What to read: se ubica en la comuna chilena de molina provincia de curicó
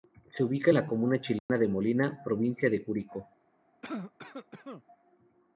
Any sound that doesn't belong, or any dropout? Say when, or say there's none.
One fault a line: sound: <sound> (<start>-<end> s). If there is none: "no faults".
sound: dropout (1.4-1.5 s)
sound: cough (3.8-4.8 s)